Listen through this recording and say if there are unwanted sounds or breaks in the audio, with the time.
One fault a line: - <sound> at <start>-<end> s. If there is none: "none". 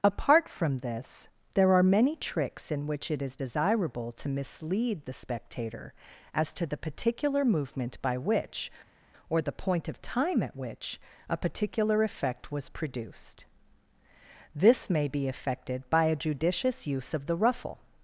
none